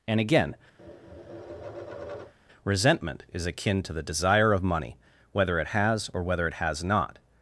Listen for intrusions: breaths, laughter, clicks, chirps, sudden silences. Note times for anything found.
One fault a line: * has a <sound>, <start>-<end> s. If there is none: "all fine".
* has a tap, 0.8-2.3 s